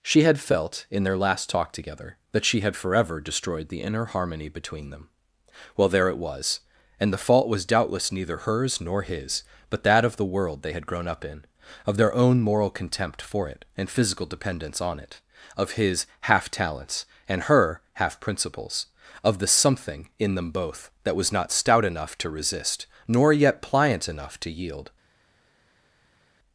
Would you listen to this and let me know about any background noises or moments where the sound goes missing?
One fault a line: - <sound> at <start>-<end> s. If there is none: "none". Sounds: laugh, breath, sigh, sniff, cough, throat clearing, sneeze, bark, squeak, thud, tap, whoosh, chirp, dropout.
none